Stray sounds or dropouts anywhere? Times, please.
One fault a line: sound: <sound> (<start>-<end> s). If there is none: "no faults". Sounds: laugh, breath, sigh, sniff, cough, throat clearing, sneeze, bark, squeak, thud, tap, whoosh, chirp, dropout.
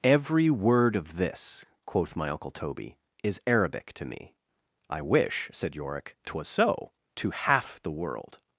no faults